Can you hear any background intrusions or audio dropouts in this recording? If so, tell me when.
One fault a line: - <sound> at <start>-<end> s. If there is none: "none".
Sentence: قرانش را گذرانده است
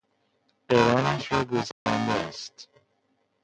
- dropout at 1.7-1.9 s